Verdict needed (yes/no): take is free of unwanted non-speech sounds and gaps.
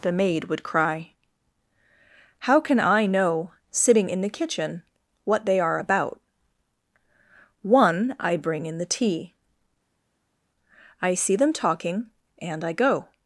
yes